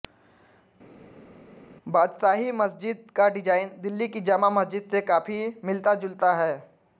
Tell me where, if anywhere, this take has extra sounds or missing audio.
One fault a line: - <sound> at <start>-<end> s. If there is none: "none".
none